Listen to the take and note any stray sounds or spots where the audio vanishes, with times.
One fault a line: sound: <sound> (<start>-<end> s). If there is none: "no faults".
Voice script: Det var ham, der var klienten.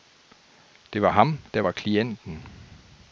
no faults